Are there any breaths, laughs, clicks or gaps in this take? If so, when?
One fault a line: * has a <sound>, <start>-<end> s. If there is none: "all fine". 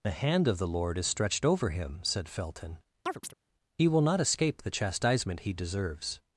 * has a chirp, 3.0-3.3 s